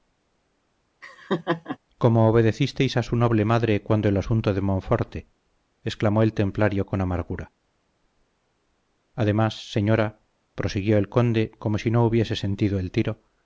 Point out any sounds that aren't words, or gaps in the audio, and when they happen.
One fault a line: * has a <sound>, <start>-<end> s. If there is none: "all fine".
* has a laugh, 1.0-1.8 s